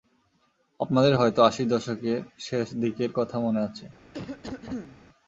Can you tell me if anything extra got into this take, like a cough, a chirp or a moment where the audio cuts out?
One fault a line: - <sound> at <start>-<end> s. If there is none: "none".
- cough at 4.1-5.0 s